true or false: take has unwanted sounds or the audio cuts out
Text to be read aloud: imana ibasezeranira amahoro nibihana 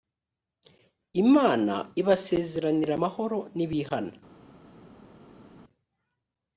false